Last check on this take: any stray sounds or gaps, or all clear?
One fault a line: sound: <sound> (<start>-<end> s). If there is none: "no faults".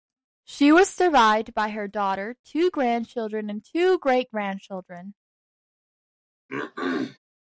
sound: throat clearing (6.5-7.2 s)